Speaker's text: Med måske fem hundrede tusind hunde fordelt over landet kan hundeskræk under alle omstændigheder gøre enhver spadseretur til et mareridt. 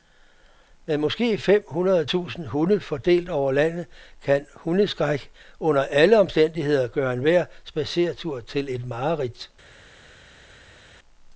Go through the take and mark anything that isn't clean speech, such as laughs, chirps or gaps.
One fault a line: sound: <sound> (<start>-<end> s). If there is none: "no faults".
no faults